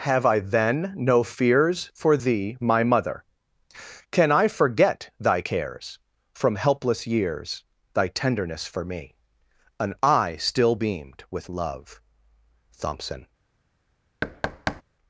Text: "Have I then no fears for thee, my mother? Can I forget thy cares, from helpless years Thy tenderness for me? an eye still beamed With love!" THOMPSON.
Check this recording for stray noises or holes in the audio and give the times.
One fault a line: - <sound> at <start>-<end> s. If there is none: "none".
- thud at 14.2-14.8 s